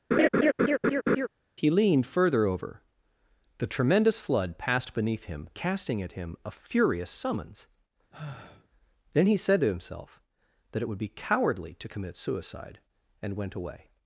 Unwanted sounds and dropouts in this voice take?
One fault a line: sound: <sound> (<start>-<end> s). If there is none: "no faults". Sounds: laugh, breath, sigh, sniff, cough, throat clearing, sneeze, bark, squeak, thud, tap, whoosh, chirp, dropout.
sound: laugh (0.1-1.3 s)
sound: sigh (8.1-8.7 s)